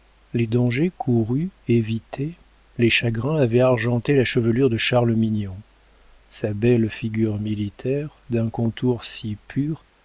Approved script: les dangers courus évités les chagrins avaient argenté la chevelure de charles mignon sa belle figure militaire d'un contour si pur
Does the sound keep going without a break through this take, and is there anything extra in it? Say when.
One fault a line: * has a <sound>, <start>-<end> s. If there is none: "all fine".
all fine